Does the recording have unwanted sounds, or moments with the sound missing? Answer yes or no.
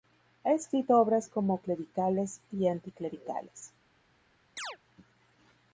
yes